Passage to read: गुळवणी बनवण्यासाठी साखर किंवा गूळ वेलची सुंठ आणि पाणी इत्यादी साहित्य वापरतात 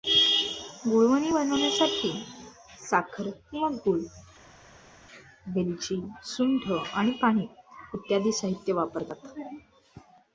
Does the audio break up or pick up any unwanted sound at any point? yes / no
no